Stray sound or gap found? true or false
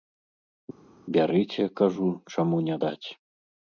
false